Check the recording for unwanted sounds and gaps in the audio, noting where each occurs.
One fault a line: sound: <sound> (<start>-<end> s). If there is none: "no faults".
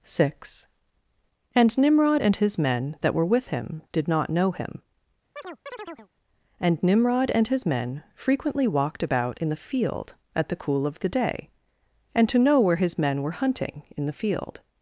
sound: chirp (5.4-6.1 s)